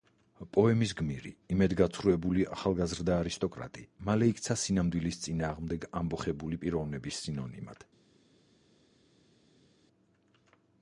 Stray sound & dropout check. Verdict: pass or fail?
pass